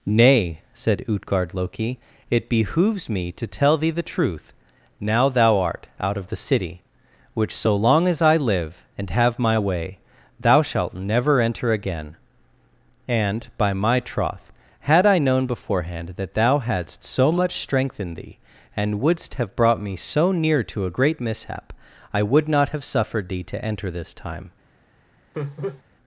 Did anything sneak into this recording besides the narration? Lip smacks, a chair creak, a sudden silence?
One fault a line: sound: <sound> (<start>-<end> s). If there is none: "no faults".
sound: laugh (25.3-25.8 s)